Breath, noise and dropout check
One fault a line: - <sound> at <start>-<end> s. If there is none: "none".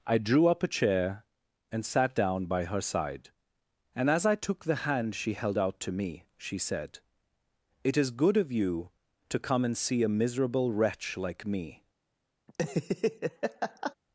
- laugh at 12.5-13.9 s